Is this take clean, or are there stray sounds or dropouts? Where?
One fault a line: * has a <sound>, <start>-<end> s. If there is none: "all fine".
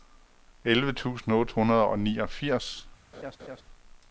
* has a laugh, 3.1-3.6 s